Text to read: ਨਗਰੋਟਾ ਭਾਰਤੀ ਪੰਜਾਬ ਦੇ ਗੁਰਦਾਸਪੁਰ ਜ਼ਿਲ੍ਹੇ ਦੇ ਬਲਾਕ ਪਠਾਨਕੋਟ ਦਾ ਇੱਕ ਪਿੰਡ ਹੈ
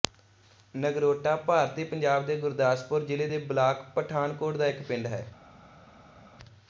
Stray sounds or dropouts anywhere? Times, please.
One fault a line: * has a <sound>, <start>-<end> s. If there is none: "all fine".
all fine